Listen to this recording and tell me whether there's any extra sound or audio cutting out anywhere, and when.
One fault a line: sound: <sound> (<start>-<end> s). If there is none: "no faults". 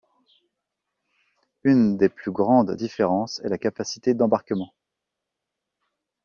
no faults